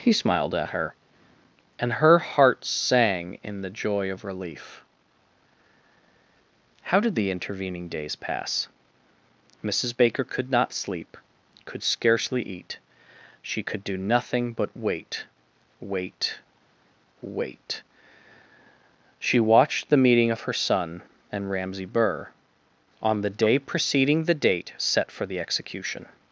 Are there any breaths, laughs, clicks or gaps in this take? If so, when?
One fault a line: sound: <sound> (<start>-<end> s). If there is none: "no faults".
no faults